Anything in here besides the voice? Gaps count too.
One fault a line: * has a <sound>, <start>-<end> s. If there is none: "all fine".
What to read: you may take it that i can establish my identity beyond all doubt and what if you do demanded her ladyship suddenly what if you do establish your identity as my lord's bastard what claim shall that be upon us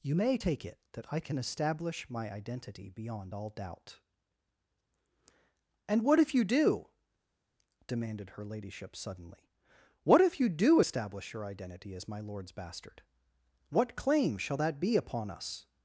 all fine